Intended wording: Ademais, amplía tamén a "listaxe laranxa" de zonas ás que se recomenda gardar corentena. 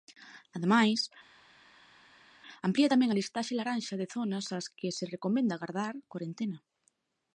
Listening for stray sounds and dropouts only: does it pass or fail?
pass